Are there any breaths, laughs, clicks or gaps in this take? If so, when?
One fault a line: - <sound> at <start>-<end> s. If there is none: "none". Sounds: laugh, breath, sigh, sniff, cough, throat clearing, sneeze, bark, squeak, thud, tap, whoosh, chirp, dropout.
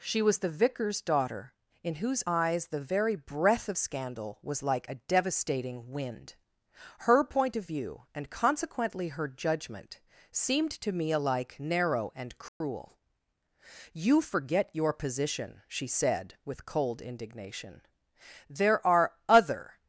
- dropout at 12.5-12.6 s